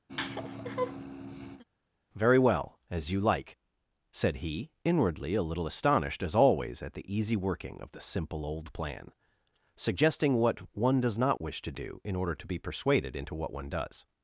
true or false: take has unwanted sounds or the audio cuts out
true